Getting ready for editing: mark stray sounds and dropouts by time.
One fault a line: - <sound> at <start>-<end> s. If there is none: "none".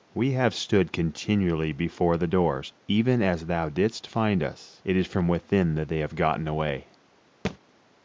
- thud at 7.4-7.6 s